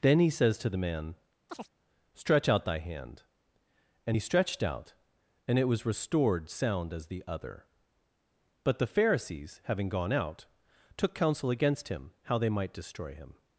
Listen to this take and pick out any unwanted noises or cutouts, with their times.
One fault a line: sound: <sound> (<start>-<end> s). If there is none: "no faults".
sound: chirp (1.5-1.7 s)